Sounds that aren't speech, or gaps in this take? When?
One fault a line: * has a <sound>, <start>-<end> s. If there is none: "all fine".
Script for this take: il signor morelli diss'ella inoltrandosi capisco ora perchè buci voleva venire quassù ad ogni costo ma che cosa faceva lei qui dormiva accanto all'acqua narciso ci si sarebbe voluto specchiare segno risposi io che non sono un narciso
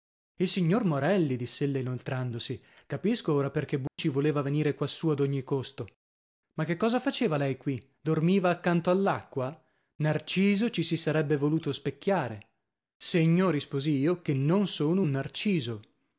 * has a dropout, 3.9-4.0 s